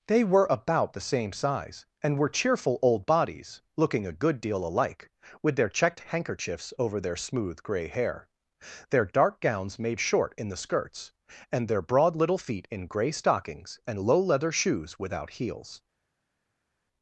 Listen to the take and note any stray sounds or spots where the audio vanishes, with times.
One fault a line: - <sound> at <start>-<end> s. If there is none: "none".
none